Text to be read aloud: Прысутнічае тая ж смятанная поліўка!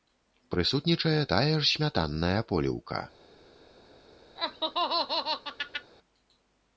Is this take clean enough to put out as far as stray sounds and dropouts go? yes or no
no